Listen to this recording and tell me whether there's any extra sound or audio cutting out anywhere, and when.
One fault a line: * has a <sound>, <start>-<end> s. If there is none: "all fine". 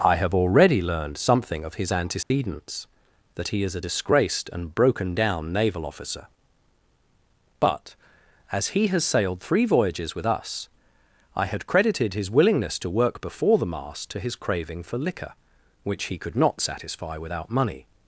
* has a dropout, 2.2-2.3 s